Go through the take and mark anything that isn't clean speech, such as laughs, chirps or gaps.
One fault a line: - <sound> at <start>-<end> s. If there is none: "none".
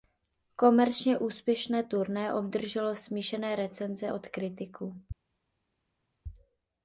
none